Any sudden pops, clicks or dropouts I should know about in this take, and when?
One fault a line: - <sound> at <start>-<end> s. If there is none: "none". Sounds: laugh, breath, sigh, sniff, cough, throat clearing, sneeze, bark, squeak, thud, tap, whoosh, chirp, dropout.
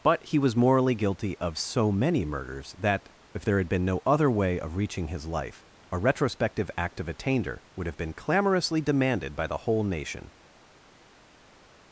none